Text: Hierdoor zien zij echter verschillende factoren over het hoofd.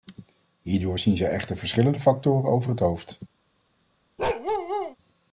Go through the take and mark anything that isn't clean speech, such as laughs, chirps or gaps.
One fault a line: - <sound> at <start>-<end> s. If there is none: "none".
- bark at 4.2-5.0 s